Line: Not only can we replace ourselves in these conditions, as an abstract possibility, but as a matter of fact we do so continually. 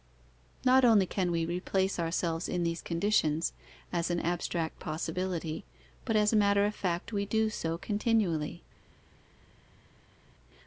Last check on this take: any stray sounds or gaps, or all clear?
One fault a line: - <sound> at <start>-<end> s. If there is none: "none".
none